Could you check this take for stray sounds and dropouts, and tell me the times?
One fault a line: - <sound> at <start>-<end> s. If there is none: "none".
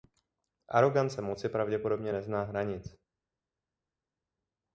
none